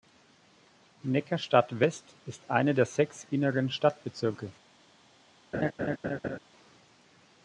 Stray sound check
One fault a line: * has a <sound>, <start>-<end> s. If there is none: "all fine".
* has a laugh, 5.5-6.4 s